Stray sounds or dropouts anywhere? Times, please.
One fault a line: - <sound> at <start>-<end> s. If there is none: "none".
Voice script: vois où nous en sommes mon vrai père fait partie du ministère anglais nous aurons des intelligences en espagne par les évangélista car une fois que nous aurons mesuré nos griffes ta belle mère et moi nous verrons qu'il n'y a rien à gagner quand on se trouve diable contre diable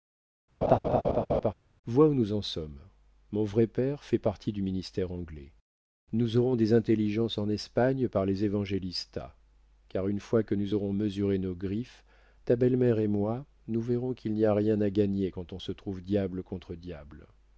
- laugh at 0.6-1.5 s